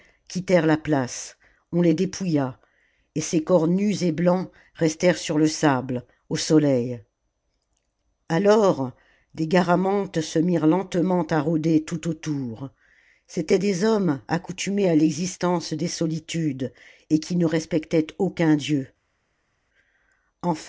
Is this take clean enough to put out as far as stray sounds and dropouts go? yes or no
yes